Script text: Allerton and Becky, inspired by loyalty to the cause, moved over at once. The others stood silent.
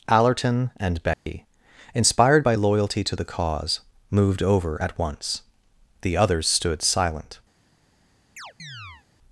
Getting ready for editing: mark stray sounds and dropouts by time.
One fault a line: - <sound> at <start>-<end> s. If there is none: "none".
- dropout at 1.1-1.3 s
- chirp at 8.4-9.1 s